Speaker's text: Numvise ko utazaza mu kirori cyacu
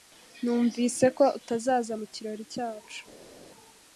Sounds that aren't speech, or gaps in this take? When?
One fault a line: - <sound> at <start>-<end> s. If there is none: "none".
none